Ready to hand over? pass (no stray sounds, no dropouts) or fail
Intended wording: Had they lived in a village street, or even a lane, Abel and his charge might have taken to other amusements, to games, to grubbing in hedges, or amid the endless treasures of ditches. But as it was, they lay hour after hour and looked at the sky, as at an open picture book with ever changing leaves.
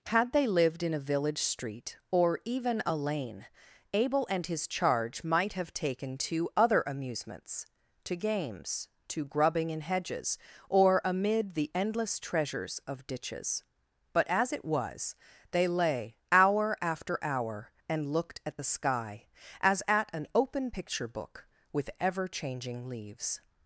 pass